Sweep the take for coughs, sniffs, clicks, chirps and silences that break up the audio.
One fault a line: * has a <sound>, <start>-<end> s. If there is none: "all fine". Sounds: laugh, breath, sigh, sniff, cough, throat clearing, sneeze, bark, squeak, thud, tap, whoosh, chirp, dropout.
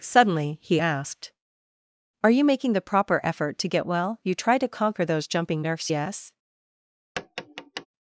* has a tap, 7.2-7.9 s